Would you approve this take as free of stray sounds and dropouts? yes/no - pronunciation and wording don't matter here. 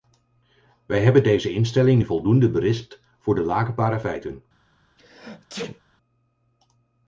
no